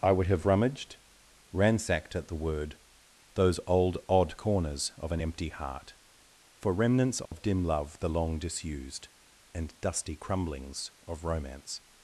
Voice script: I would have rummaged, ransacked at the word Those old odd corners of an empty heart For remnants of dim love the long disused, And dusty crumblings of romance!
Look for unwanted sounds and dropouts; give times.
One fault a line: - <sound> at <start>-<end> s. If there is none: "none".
- dropout at 7.3-7.3 s